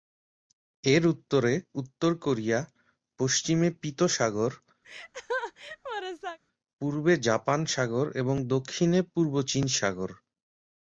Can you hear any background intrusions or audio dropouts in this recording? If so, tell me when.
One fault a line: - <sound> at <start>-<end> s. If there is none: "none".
- laugh at 4.8-6.4 s